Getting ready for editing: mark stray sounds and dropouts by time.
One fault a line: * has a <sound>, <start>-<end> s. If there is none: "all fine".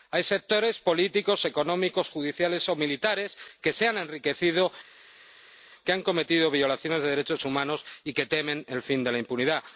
all fine